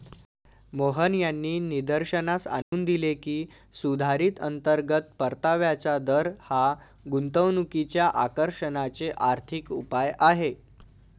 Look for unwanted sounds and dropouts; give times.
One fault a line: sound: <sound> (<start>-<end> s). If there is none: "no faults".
sound: dropout (2.6-2.7 s)